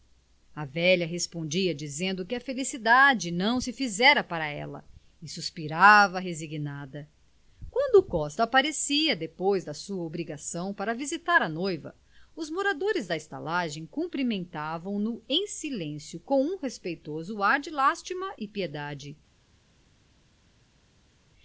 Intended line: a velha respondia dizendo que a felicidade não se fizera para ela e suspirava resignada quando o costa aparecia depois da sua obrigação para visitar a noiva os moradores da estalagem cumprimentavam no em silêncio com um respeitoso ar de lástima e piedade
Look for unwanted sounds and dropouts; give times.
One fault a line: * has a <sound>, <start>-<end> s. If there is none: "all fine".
all fine